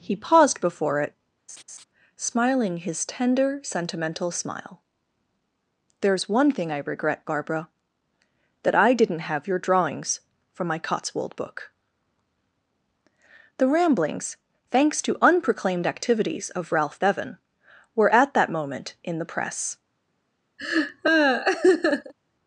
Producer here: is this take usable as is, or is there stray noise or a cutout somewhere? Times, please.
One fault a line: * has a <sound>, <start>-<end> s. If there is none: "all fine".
* has a laugh, 1.5-1.8 s
* has a laugh, 20.6-22.1 s